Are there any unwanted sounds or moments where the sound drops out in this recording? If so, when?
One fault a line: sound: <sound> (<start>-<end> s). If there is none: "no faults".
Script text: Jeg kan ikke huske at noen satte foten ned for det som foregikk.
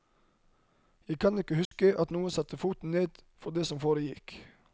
sound: dropout (1.6-1.7 s)